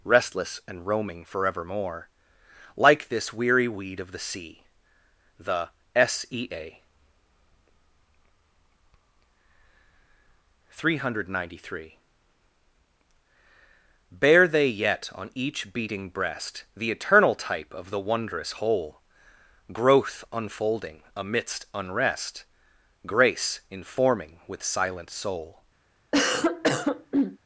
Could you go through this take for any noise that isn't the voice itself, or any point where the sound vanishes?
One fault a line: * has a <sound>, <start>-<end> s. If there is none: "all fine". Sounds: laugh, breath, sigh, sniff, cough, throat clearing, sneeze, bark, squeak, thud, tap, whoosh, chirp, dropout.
* has a cough, 26.1-27.4 s